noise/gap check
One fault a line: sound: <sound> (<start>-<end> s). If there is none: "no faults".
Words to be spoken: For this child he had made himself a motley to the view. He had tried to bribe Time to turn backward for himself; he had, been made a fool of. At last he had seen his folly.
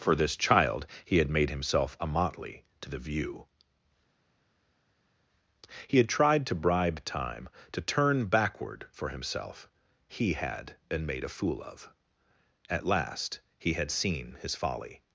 no faults